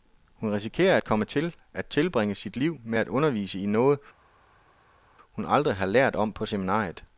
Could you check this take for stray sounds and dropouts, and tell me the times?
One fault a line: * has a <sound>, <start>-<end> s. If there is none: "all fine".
all fine